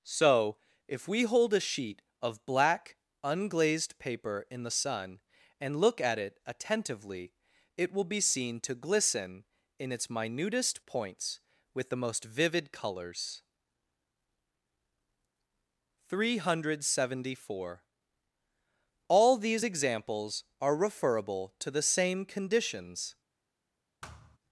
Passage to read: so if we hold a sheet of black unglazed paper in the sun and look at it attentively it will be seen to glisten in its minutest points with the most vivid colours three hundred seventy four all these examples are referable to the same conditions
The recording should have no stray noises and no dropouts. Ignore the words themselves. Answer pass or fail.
fail